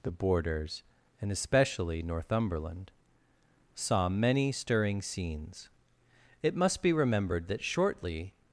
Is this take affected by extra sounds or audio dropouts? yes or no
no